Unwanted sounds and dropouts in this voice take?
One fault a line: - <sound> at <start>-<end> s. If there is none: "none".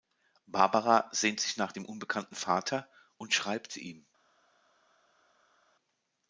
none